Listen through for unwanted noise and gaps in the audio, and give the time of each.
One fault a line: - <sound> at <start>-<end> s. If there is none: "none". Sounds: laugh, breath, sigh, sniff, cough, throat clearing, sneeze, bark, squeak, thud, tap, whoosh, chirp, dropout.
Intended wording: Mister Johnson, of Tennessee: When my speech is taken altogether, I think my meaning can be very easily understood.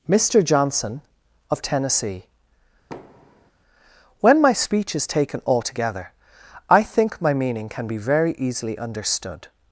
- thud at 2.9-3.5 s